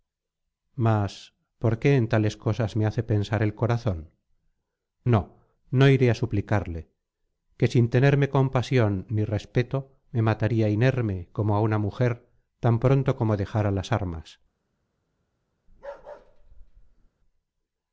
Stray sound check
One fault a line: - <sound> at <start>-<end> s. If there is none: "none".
- bark at 15.7-17.1 s